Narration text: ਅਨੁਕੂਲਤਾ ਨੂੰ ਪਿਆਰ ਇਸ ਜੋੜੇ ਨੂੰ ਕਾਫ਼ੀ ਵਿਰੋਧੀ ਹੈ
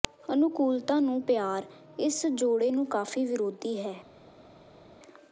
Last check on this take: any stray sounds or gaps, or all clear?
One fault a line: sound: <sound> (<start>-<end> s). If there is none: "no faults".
no faults